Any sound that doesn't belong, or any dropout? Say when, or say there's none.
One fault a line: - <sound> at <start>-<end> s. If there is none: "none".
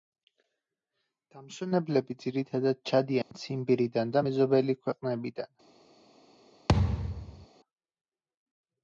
- dropout at 3.2-3.3 s
- thud at 6.7-7.5 s